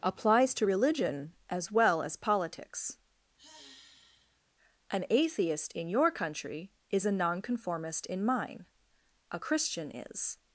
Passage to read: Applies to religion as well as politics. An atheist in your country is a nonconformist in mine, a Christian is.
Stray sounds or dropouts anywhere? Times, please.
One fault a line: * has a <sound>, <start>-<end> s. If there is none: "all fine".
* has a sigh, 3.4-4.4 s